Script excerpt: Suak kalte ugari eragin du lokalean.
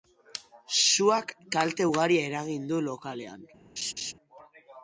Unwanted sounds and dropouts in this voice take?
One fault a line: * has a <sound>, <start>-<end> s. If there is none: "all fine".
* has a laugh, 3.8-4.1 s